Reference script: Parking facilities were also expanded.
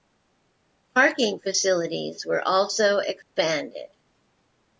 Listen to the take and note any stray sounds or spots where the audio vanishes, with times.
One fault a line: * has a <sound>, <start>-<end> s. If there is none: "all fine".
* has a dropout, 3.2-3.4 s